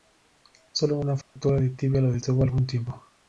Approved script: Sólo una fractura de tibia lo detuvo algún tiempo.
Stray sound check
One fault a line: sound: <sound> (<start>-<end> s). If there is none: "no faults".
sound: dropout (1.2-1.4 s)